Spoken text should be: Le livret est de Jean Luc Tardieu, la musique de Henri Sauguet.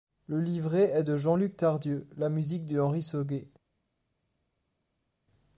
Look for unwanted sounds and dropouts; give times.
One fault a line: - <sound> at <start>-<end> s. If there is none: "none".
none